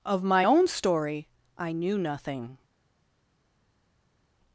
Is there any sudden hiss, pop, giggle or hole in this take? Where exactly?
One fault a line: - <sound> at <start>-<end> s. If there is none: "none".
none